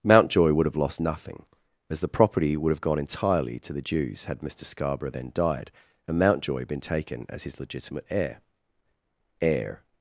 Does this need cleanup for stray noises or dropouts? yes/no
no